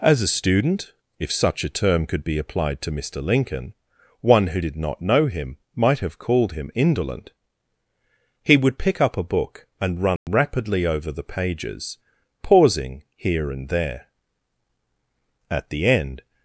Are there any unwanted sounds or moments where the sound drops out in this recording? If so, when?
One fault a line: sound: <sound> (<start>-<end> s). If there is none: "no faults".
sound: dropout (10.2-10.3 s)